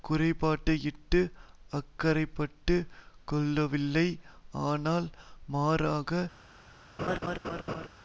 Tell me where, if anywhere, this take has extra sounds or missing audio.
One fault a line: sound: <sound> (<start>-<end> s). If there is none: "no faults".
sound: laugh (7.0-7.9 s)